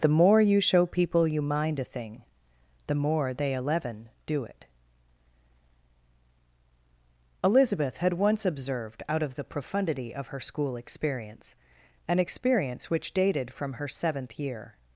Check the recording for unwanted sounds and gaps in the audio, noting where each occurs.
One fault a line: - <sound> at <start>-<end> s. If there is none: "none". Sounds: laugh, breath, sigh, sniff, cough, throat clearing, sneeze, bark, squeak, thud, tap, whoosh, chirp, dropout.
none